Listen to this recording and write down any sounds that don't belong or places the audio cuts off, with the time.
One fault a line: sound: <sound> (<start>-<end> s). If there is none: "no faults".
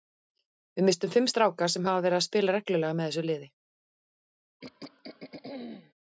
sound: throat clearing (4.6-5.9 s)